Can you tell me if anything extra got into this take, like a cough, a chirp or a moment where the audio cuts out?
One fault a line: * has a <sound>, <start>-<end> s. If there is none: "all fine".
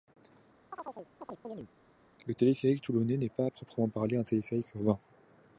* has a chirp, 0.7-1.7 s